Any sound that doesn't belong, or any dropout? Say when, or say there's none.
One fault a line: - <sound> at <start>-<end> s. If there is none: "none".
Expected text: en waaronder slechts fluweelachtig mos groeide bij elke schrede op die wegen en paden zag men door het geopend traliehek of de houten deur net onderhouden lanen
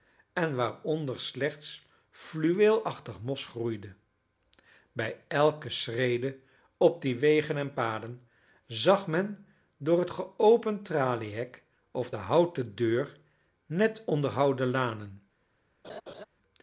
- laugh at 15.8-16.3 s